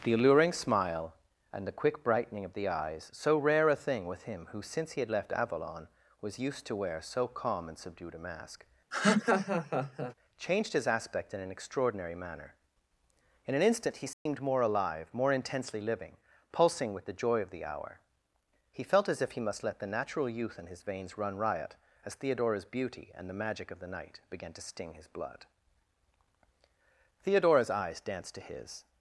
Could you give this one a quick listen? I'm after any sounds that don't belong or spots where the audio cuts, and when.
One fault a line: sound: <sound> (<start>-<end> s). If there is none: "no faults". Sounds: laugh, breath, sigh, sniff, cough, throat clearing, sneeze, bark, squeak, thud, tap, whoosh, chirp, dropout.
sound: laugh (8.9-10.1 s)
sound: dropout (14.1-14.3 s)